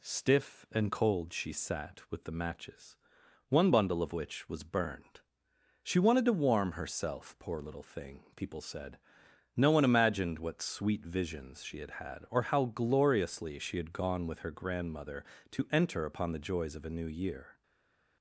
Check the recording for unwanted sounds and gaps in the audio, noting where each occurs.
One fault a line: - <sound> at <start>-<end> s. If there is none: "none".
none